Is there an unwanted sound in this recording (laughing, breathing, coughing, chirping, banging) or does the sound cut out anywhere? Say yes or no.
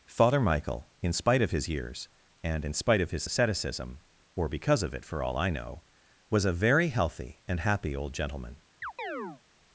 yes